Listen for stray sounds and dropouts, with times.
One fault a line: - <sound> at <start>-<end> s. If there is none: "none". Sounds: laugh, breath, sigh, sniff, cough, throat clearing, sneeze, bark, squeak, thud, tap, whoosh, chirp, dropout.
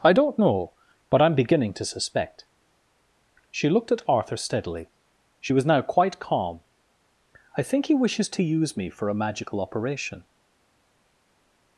none